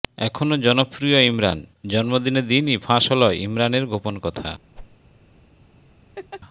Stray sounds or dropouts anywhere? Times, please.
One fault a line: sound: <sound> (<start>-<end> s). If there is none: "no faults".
sound: whoosh (4.8-5.0 s)
sound: laugh (6.2-6.4 s)